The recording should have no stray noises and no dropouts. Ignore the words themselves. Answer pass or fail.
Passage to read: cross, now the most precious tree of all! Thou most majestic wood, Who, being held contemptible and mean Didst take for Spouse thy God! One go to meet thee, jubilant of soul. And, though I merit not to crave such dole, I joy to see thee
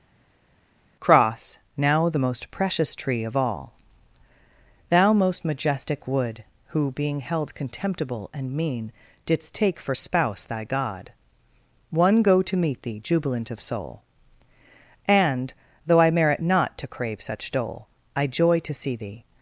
pass